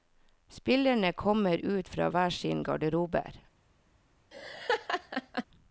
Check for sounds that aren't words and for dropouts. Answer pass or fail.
fail